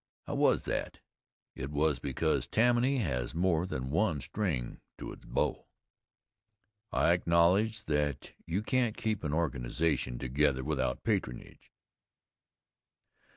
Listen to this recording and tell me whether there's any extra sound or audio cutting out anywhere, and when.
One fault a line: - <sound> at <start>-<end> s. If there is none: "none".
none